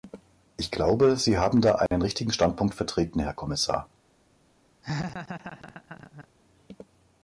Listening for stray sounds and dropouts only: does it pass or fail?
fail